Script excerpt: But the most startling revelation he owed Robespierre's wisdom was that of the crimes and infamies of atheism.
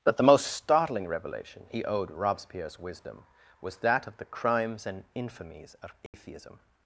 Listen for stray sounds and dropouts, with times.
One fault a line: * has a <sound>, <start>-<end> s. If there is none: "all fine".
* has a dropout, 6.1-6.1 s